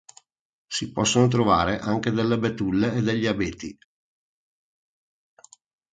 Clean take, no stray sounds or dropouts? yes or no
yes